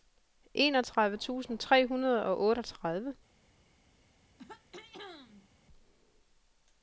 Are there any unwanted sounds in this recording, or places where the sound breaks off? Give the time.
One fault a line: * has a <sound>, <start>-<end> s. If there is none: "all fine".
* has a throat clearing, 4.4-5.5 s